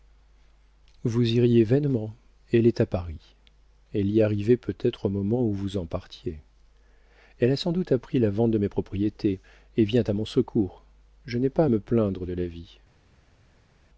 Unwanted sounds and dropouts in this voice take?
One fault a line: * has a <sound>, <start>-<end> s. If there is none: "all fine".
all fine